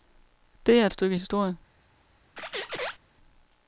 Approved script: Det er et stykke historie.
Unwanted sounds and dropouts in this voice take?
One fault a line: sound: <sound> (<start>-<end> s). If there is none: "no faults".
sound: squeak (2.4-3.0 s)